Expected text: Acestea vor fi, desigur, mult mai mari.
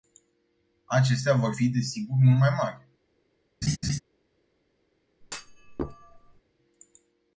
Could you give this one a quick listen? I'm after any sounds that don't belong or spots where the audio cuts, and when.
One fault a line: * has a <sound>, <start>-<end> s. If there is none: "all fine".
* has a laugh, 3.6-4.0 s
* has a thud, 5.2-6.4 s